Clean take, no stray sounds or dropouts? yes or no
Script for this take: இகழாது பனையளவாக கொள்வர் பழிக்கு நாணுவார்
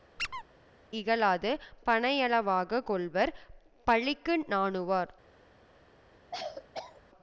no